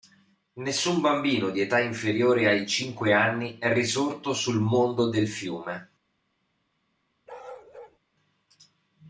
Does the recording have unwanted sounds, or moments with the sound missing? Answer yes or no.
yes